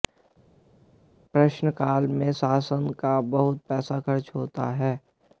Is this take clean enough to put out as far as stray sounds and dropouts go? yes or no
yes